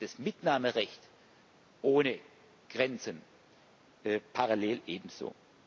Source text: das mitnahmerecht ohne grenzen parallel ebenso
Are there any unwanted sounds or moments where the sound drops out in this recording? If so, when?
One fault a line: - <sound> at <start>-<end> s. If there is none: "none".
none